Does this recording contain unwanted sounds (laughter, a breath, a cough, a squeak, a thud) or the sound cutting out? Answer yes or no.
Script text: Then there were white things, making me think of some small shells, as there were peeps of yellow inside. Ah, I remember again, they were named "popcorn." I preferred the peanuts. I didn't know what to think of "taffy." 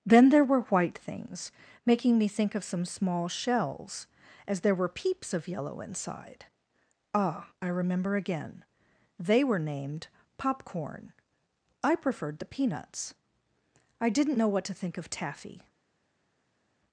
no